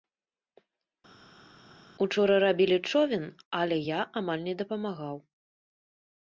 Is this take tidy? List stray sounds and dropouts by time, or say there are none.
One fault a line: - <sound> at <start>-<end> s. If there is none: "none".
none